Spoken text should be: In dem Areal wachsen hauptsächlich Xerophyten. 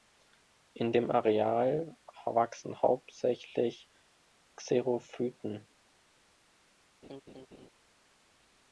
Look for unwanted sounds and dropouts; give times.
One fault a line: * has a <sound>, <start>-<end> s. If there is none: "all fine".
* has a laugh, 7.0-7.7 s